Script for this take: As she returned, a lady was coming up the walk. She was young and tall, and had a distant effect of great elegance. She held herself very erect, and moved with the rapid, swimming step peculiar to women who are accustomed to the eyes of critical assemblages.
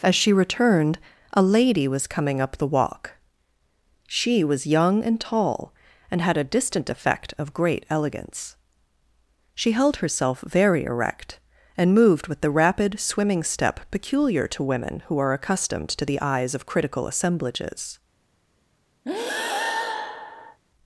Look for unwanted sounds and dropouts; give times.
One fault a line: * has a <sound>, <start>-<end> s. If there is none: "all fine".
* has a breath, 19.0-20.6 s